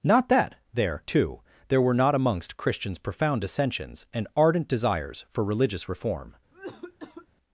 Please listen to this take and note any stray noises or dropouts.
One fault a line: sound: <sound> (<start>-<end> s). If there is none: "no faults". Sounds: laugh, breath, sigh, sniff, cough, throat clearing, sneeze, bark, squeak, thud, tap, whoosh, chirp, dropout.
sound: cough (6.5-7.3 s)